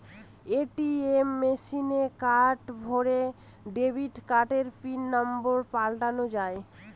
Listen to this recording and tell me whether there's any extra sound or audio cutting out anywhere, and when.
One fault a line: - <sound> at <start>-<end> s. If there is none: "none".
none